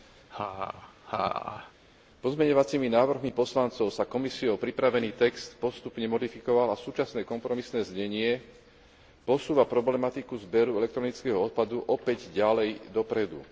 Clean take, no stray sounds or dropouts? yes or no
no